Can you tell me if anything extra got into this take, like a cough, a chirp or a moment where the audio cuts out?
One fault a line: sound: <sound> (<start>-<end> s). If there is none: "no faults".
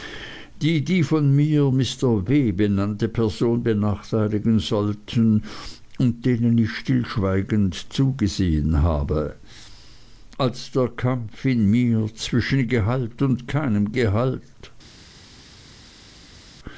no faults